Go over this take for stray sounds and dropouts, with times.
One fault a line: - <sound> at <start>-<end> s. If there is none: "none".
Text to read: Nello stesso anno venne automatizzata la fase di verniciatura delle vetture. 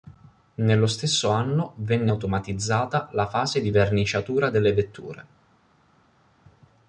none